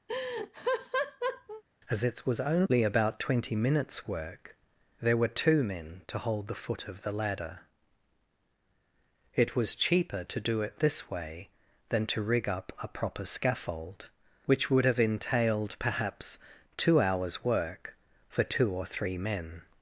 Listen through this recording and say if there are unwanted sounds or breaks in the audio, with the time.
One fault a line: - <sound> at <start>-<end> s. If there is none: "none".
- laugh at 0.1-1.6 s